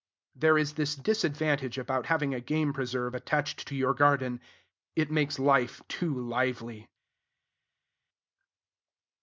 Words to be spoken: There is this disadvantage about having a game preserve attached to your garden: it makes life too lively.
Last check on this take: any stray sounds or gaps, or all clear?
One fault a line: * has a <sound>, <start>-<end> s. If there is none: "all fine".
all fine